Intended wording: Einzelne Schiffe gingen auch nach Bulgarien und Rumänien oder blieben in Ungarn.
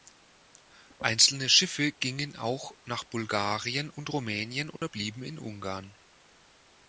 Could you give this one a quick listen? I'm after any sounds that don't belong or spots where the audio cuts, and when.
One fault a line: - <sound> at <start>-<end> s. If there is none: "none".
- dropout at 4.8-4.8 s